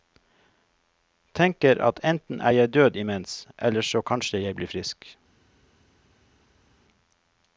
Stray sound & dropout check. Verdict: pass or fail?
pass